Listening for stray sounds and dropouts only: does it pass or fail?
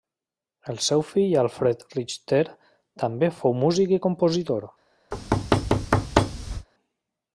fail